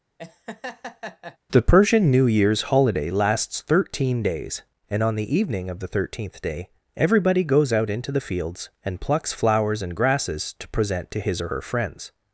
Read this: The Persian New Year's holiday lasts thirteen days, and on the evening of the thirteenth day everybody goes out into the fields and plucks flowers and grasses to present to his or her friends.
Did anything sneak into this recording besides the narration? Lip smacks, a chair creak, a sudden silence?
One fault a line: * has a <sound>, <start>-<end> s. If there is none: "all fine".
* has a laugh, 0.2-1.4 s